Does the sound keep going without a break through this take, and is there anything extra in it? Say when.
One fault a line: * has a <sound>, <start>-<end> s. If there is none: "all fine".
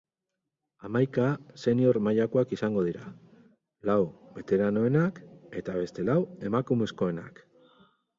all fine